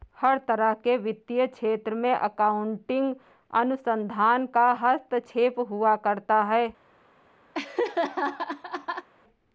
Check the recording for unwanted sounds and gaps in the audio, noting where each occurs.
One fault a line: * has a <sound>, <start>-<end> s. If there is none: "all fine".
* has a laugh, 7.5-9.1 s